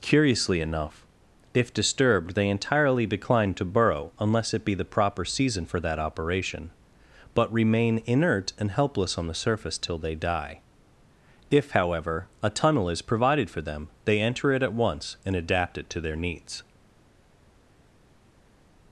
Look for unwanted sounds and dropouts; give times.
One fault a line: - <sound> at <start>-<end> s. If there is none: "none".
none